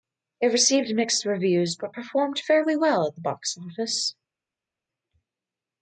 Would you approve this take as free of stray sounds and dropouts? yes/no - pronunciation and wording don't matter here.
yes